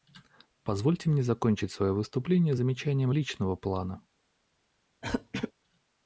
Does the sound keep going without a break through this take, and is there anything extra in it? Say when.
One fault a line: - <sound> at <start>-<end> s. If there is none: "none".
- throat clearing at 5.0-5.5 s